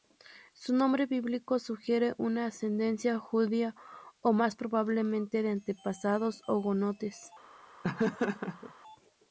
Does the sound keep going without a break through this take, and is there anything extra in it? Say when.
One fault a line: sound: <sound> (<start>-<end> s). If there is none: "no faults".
sound: laugh (7.8-8.7 s)